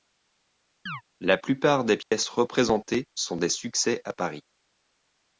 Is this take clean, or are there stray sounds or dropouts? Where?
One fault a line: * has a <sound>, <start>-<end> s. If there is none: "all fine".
* has a chirp, 0.9-1.0 s
* has a dropout, 2.0-2.1 s